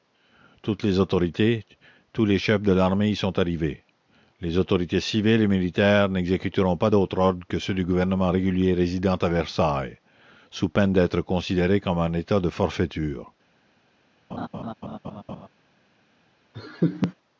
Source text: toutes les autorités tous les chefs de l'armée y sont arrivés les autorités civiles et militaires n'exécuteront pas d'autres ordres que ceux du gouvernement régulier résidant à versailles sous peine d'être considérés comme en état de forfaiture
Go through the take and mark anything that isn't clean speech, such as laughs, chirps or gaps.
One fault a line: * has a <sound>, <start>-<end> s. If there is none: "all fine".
* has a laugh, 14.3-15.5 s
* has a laugh, 16.5-17.1 s